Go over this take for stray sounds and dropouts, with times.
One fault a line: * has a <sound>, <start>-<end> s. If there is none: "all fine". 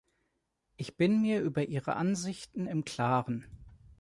all fine